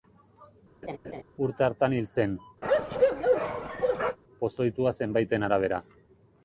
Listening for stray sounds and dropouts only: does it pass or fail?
fail